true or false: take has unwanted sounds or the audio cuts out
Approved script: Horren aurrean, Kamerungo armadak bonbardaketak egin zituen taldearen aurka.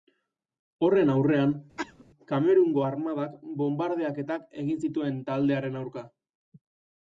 true